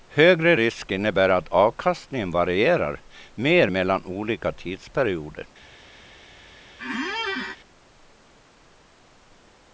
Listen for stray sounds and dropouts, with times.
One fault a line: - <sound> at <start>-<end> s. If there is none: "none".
- squeak at 6.8-7.6 s